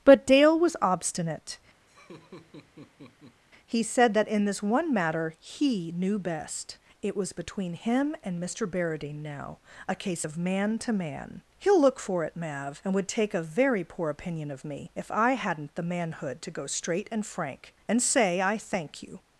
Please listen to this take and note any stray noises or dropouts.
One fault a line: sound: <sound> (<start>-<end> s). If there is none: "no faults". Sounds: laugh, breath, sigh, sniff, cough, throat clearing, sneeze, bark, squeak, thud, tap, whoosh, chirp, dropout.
sound: laugh (1.9-3.4 s)